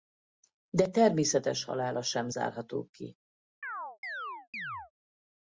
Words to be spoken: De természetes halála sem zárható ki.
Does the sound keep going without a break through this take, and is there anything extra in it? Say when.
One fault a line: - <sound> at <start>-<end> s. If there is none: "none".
- chirp at 3.6-4.9 s